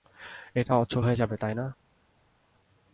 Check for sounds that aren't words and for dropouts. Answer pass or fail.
pass